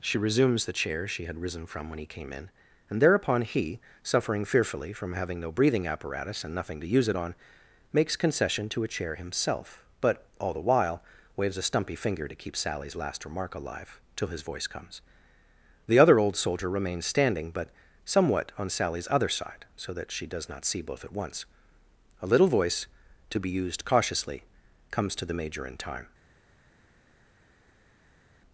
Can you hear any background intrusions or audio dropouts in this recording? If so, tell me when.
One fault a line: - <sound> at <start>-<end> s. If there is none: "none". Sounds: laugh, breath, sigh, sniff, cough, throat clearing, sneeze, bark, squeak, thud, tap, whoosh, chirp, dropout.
none